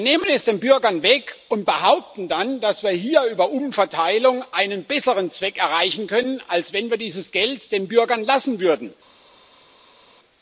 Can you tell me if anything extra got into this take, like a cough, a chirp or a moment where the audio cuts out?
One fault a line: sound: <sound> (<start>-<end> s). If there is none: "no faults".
no faults